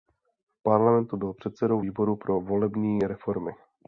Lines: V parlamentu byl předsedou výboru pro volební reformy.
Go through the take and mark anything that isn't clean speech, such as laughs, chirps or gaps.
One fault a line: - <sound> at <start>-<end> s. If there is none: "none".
none